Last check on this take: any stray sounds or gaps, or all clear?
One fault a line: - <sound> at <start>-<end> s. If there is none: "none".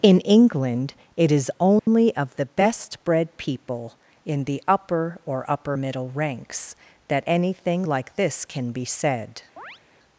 - dropout at 1.8-1.9 s
- chirp at 9.6-9.8 s